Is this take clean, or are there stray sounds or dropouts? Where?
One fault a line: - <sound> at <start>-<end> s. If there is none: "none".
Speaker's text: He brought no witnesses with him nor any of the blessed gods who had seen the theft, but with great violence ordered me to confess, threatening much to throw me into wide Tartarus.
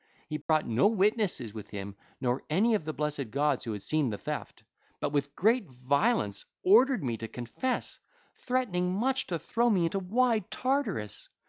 - dropout at 0.4-0.5 s